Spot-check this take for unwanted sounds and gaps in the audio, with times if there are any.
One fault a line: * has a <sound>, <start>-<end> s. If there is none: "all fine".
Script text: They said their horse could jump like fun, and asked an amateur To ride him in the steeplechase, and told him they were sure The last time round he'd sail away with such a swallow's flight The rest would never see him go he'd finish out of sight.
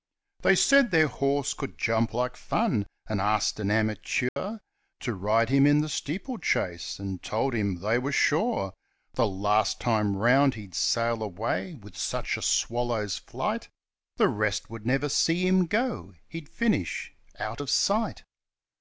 * has a dropout, 4.3-4.4 s